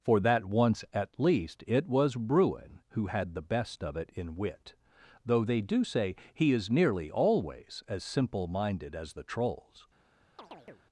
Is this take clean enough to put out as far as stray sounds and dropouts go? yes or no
no